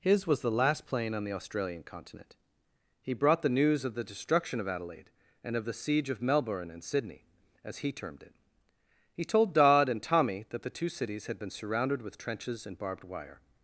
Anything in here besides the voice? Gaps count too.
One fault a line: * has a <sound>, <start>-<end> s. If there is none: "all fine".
all fine